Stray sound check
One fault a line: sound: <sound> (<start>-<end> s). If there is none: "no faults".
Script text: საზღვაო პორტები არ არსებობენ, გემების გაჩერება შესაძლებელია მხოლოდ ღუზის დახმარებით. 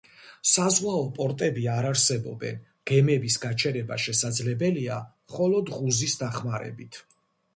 no faults